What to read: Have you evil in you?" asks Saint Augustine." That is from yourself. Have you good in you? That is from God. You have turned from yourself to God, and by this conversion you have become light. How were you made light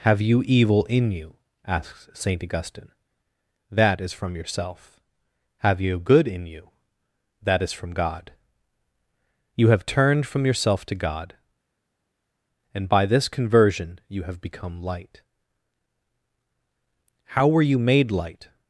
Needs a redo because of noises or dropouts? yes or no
no